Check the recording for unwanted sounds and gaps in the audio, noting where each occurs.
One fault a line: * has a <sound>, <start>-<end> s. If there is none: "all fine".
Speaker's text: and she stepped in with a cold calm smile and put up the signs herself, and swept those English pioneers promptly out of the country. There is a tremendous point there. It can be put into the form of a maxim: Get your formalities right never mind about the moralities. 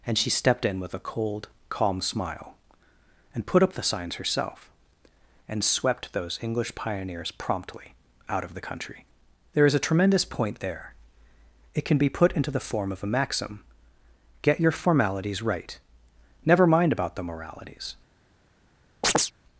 * has a chirp, 19.0-19.3 s